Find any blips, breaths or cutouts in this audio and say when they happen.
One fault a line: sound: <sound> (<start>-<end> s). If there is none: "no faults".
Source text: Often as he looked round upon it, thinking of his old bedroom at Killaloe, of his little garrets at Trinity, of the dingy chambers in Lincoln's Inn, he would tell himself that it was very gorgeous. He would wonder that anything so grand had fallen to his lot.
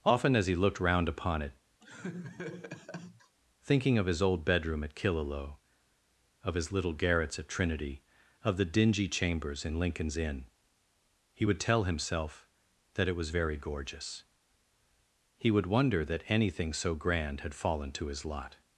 sound: laugh (1.8-3.4 s)